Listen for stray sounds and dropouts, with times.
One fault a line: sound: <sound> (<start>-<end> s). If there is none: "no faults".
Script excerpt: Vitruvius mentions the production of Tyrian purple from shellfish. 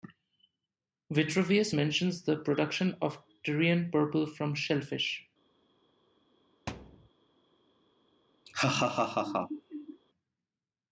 sound: thud (6.7-7.1 s)
sound: laugh (8.5-10.0 s)